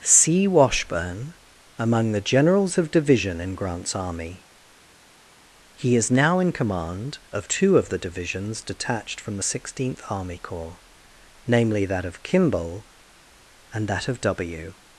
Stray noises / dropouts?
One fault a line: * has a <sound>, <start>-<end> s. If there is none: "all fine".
all fine